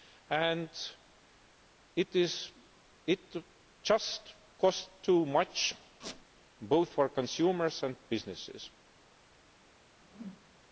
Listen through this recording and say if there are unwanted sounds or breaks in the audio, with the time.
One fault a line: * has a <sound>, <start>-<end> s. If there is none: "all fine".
* has a squeak, 6.0-6.3 s
* has a whoosh, 10.0-10.6 s